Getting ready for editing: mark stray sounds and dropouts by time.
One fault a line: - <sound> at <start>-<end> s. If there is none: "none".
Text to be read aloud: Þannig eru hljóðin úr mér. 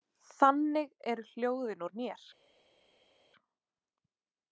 none